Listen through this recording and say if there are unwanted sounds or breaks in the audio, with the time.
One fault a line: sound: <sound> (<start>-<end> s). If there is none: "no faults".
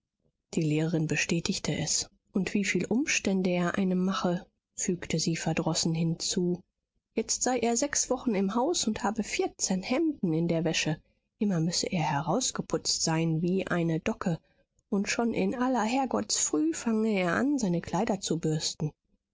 no faults